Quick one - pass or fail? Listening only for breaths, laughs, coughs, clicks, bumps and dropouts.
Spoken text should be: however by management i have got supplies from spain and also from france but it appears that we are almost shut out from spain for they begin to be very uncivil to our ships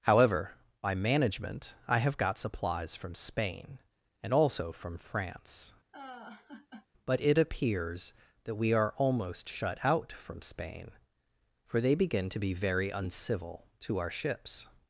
fail